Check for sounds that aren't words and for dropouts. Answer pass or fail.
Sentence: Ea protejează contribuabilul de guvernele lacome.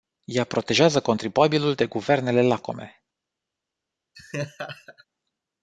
fail